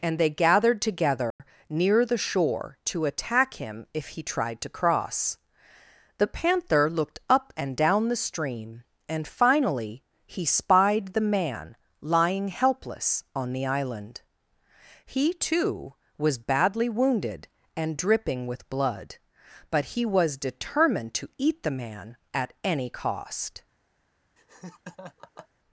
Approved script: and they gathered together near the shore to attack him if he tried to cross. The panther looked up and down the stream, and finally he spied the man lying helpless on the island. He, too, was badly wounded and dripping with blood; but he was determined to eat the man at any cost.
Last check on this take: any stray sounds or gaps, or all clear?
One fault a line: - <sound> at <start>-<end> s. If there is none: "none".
- dropout at 1.3-1.4 s
- laugh at 24.4-25.5 s